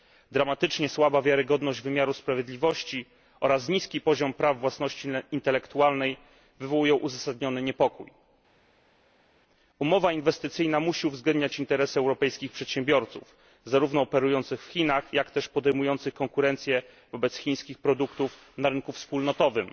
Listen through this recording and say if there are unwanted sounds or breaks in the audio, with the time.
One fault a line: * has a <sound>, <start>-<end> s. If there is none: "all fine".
all fine